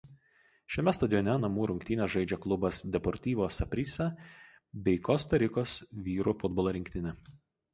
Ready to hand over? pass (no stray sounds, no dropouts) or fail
pass